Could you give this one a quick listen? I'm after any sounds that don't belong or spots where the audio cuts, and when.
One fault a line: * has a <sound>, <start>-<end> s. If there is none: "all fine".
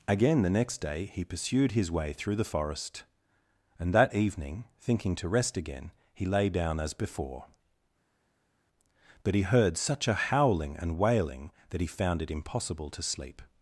all fine